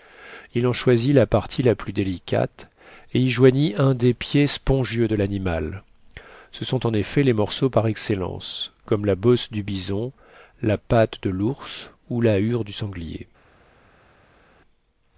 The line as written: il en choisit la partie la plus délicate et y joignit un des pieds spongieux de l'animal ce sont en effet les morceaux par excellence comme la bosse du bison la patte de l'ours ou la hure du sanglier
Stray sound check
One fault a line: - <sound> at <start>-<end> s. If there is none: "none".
none